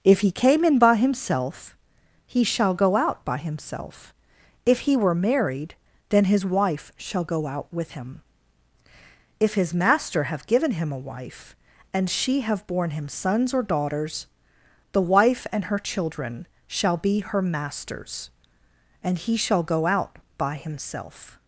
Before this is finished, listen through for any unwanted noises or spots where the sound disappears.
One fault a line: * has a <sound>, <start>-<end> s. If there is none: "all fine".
all fine